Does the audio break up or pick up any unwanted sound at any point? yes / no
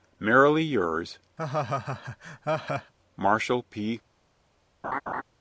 yes